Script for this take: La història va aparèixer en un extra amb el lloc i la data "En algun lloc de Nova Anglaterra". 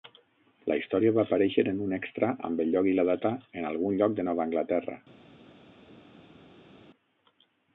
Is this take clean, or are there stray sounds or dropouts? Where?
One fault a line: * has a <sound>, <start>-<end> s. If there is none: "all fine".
all fine